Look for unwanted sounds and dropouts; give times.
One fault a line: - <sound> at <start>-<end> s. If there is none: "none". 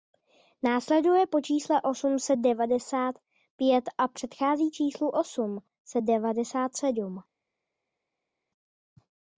none